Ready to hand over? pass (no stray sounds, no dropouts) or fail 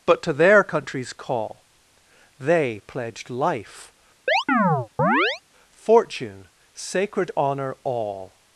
fail